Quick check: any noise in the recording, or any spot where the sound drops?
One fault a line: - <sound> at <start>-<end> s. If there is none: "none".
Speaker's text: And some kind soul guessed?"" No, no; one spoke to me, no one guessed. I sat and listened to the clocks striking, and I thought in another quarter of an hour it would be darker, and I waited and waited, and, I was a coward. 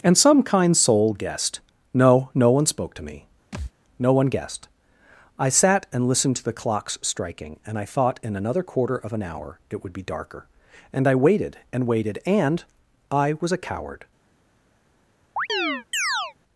- thud at 3.5-3.7 s
- chirp at 15.4-16.3 s